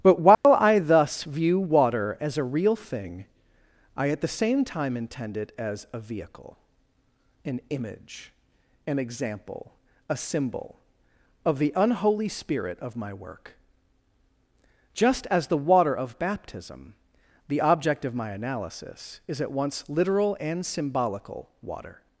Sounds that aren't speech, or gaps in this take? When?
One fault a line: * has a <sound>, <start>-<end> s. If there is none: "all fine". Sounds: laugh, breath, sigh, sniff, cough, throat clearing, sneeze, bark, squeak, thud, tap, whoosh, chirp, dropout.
* has a dropout, 0.3-0.4 s